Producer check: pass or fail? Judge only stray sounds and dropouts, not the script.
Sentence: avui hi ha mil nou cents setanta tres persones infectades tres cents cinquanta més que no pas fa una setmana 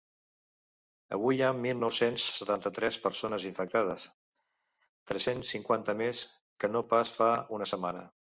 pass